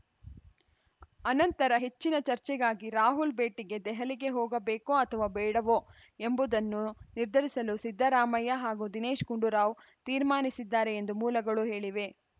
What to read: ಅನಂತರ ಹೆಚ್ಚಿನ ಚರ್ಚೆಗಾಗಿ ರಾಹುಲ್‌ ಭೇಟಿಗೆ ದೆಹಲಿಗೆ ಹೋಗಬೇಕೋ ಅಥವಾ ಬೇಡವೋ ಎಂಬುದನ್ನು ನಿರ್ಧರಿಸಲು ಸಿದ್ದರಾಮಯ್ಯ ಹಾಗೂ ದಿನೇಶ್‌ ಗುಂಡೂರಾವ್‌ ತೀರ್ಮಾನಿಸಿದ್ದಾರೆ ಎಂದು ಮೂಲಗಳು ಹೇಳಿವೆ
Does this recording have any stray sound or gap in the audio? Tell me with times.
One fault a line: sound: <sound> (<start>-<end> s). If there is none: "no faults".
no faults